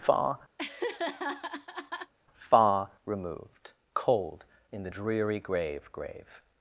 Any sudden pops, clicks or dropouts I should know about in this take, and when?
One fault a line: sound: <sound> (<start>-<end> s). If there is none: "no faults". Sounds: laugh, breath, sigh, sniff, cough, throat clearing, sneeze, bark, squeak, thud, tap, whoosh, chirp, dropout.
sound: laugh (0.6-2.1 s)